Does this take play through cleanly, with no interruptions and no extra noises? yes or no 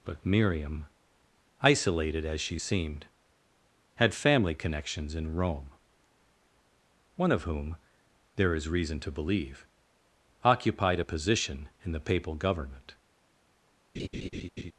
no